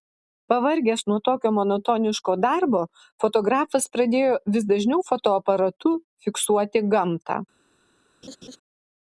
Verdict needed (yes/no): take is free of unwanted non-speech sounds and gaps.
no